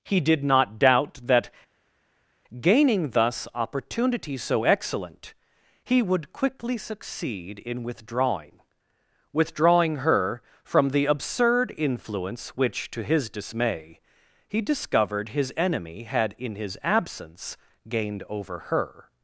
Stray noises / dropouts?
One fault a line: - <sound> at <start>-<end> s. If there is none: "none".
none